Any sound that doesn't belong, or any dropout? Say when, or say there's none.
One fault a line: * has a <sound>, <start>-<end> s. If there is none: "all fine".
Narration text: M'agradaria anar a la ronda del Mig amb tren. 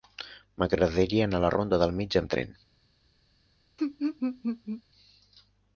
* has a laugh, 3.8-4.8 s